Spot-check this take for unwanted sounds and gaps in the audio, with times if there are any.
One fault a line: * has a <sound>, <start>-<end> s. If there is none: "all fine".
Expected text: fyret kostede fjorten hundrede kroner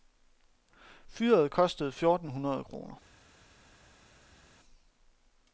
all fine